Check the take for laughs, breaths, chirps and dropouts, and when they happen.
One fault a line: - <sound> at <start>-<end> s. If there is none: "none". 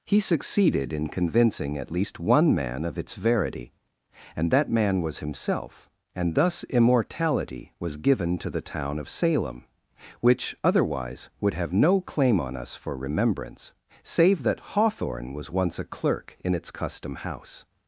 none